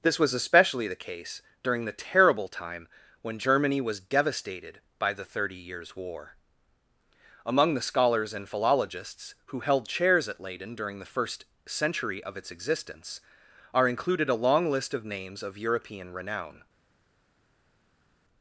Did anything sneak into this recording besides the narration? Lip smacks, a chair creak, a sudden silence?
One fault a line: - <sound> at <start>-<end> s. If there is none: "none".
none